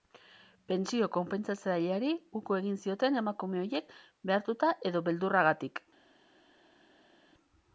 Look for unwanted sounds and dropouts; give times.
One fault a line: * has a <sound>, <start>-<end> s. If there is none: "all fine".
all fine